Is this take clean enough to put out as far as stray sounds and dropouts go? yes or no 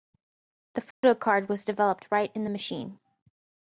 no